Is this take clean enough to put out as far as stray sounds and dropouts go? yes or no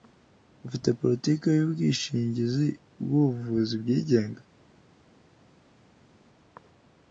yes